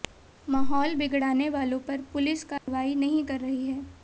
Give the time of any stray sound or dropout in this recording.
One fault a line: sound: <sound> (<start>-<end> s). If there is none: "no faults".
sound: dropout (2.6-2.7 s)